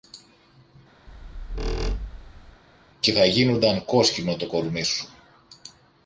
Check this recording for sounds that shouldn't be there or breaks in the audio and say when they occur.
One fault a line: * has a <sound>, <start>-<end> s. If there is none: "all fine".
* has a squeak, 1.1-2.6 s